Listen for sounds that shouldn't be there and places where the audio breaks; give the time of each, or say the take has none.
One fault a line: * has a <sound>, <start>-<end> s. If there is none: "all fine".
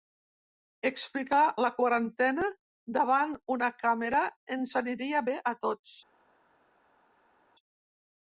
all fine